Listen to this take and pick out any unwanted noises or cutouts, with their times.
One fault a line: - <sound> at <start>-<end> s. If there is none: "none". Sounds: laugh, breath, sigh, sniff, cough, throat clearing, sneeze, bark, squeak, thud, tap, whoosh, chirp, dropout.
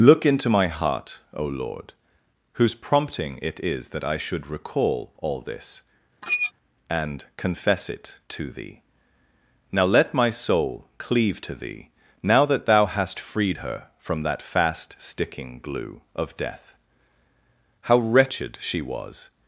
- squeak at 6.2-6.5 s